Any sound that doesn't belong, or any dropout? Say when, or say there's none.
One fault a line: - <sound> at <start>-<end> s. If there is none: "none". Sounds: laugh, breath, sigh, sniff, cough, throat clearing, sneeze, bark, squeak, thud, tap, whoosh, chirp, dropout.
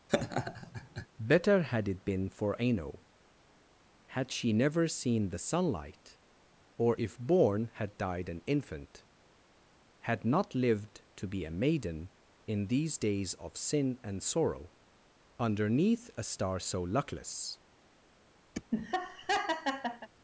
- laugh at 0.1-1.1 s
- laugh at 18.5-20.1 s